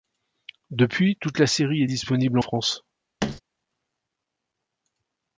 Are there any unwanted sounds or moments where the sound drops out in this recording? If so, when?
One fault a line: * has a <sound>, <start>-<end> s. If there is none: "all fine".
* has a thud, 3.2-3.4 s